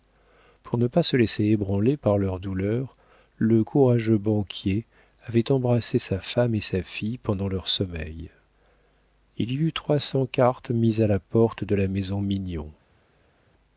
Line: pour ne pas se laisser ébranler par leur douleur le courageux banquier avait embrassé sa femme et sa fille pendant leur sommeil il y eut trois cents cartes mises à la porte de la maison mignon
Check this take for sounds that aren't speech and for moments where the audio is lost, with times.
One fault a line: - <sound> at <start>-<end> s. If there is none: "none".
none